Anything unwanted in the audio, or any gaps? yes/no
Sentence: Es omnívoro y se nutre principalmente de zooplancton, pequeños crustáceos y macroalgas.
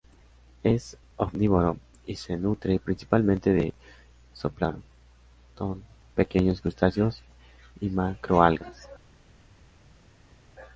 no